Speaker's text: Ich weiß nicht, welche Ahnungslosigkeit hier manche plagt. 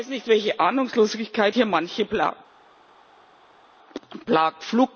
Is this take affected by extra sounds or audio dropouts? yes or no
no